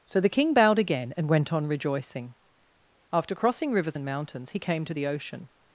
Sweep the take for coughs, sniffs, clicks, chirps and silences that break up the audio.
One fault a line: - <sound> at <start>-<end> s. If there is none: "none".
none